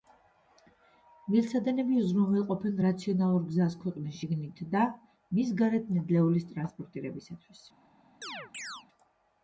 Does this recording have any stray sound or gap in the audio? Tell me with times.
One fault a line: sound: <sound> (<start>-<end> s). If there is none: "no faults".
sound: chirp (8.2-8.9 s)